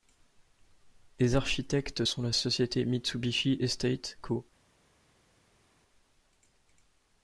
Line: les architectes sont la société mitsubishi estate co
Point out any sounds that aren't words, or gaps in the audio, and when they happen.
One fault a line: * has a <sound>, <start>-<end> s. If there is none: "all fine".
all fine